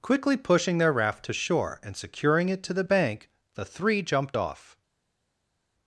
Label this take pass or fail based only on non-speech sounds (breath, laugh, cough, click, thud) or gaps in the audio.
pass